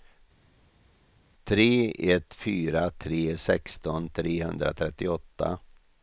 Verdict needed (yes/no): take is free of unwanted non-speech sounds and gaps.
yes